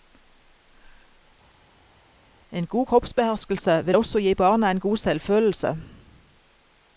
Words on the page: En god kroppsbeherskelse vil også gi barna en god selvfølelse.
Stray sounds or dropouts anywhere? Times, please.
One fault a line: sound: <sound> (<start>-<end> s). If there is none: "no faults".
no faults